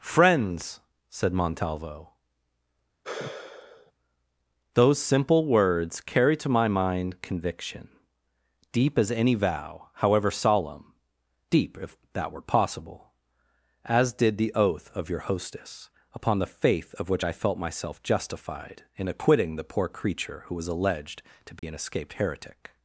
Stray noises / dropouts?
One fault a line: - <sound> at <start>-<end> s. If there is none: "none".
- sigh at 3.0-3.9 s
- dropout at 21.6-21.6 s